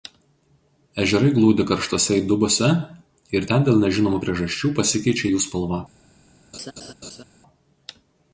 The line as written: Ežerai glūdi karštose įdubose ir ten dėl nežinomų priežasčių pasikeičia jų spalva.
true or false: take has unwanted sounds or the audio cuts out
true